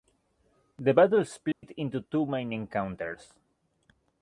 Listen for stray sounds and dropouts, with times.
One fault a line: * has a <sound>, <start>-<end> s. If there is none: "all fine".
* has a dropout, 1.5-1.6 s